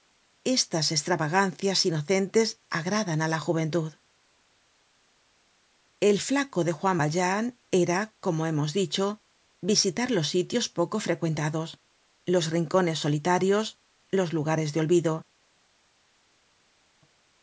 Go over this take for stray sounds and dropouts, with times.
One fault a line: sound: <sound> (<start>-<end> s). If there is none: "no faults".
no faults